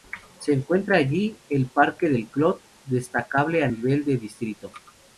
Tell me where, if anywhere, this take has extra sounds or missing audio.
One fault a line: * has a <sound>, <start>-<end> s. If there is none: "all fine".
all fine